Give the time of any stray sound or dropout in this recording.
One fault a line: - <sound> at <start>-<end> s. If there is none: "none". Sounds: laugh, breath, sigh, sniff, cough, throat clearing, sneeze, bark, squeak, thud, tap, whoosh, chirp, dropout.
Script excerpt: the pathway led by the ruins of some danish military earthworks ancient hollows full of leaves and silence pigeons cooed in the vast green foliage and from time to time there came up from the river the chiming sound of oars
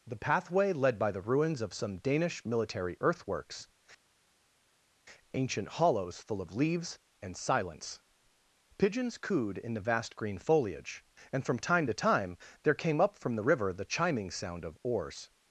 none